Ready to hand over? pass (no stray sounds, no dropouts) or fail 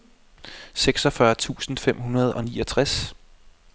pass